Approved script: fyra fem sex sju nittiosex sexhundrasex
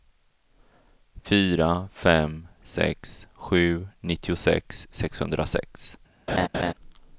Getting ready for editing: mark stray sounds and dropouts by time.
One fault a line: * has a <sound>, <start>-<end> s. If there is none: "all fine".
* has a laugh, 6.3-6.7 s